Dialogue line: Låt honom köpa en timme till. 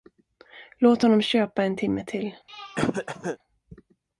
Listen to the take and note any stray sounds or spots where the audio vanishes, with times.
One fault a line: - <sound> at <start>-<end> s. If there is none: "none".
- throat clearing at 2.5-3.4 s